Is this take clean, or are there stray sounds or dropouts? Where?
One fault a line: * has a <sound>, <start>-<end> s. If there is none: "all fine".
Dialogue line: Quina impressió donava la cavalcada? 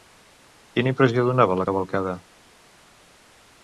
all fine